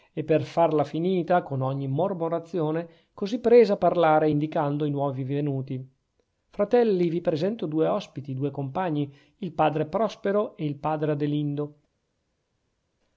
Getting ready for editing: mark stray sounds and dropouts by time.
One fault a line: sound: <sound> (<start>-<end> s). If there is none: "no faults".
no faults